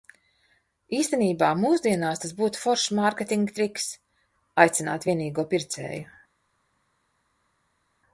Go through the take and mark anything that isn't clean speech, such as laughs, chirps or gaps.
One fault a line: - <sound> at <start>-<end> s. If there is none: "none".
none